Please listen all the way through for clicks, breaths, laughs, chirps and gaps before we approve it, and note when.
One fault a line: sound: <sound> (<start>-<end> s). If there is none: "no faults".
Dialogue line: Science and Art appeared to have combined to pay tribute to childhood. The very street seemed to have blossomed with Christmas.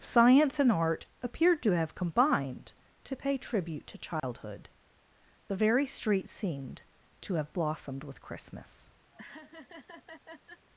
sound: dropout (4.2-4.2 s)
sound: laugh (9.1-10.7 s)